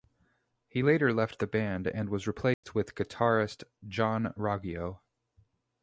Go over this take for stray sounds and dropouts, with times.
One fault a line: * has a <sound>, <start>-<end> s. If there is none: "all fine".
* has a dropout, 2.5-2.6 s